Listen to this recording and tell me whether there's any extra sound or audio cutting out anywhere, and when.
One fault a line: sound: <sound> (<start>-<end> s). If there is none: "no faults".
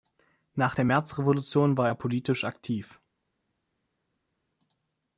no faults